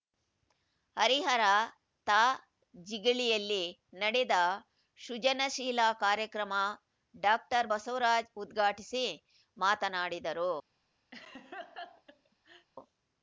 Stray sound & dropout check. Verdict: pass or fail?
fail